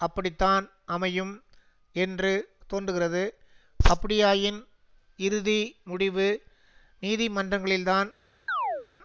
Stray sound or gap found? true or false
true